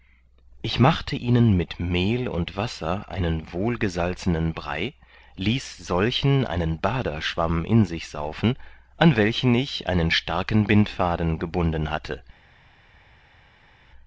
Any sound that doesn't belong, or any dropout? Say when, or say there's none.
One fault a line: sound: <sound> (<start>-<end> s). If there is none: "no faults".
no faults